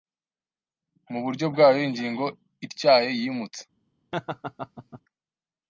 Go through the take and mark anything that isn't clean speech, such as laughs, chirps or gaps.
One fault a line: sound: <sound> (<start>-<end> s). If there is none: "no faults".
sound: laugh (4.1-5.0 s)